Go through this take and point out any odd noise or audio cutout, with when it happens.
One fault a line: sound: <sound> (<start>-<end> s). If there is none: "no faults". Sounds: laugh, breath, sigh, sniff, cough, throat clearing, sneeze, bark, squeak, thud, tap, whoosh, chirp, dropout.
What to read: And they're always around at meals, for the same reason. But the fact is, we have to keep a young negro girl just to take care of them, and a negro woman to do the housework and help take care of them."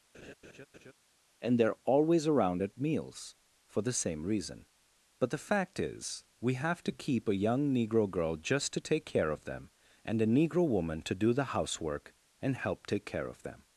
sound: laugh (0.1-0.9 s)